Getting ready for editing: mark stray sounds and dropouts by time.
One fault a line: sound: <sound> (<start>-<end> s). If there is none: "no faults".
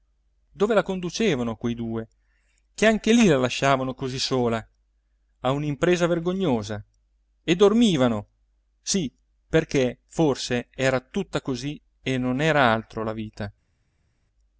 no faults